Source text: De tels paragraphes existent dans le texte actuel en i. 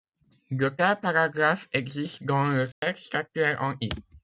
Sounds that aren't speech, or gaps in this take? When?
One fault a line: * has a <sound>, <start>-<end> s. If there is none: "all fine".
* has a dropout, 2.7-2.8 s